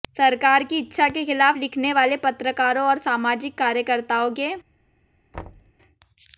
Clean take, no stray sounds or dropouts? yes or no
no